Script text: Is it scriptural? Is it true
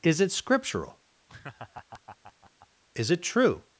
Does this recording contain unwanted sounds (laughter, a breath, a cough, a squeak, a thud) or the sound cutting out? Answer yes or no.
yes